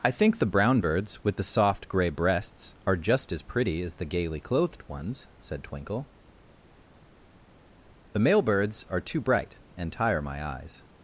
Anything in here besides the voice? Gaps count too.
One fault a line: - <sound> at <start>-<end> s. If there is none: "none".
none